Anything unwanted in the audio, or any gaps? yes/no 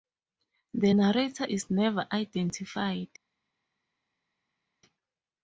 no